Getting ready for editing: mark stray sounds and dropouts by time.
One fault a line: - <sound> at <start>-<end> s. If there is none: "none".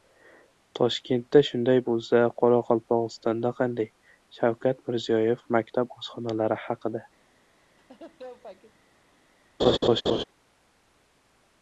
- laugh at 7.8-8.8 s
- laugh at 9.6-10.2 s